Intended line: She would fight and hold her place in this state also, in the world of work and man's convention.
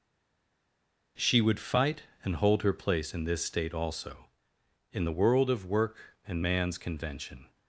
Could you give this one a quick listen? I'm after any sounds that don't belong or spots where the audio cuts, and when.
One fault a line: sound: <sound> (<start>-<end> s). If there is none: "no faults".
no faults